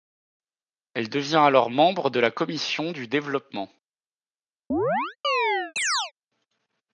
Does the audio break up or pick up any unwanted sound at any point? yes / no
yes